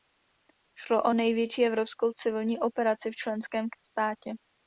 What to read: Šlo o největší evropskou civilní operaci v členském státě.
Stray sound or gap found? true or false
false